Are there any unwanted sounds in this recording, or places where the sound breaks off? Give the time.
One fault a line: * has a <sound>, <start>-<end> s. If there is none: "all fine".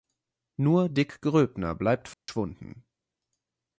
* has a dropout, 2.1-2.3 s